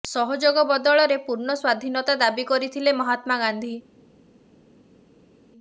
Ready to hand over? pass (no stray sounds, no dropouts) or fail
pass